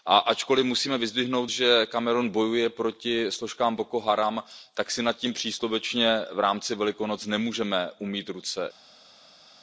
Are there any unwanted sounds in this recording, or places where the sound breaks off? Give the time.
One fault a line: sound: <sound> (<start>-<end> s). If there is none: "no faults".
no faults